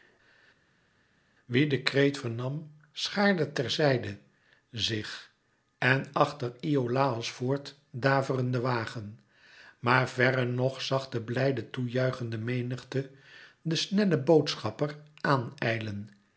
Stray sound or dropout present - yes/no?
no